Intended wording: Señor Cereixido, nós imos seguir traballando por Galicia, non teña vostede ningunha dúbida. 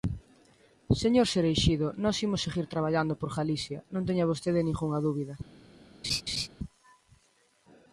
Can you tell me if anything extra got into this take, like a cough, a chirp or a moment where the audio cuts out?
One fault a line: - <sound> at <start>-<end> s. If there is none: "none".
- laugh at 6.0-6.5 s